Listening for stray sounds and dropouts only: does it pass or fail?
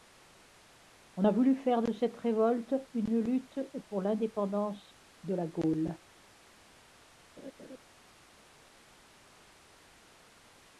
fail